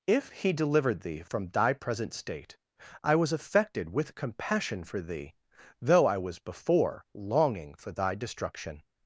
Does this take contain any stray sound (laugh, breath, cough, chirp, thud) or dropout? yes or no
no